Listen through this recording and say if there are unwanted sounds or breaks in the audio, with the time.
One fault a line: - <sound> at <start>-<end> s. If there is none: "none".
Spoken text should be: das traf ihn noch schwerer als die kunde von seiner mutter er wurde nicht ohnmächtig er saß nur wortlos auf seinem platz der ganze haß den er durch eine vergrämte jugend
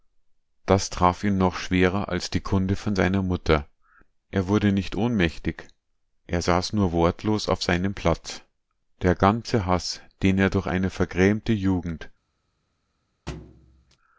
- thud at 13.3-14.0 s